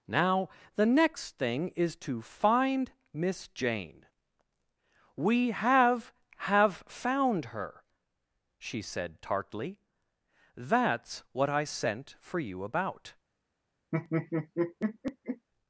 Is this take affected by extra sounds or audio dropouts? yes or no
yes